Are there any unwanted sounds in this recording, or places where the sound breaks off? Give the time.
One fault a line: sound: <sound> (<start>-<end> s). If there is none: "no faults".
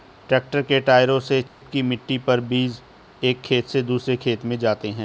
sound: dropout (1.5-1.6 s)